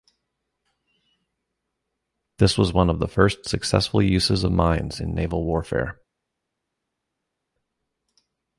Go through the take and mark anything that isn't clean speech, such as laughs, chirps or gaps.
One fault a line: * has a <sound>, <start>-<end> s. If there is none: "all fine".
all fine